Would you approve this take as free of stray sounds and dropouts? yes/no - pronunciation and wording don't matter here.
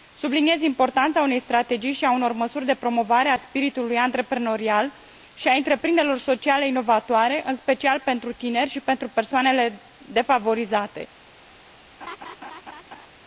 no